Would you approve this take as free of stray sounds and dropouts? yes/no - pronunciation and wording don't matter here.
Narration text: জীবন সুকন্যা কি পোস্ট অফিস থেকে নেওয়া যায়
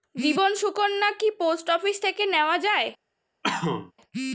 no